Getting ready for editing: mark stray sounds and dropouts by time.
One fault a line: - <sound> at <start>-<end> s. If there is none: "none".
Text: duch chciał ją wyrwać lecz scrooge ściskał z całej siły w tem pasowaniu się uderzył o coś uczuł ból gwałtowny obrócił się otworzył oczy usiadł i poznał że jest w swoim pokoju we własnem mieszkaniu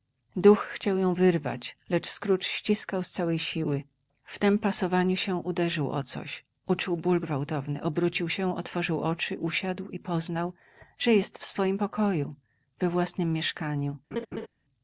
- laugh at 14.1-14.5 s